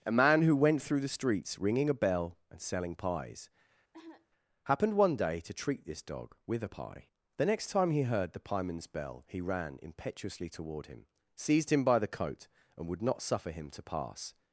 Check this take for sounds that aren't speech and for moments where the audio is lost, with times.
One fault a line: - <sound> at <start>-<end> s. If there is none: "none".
- cough at 3.9-4.3 s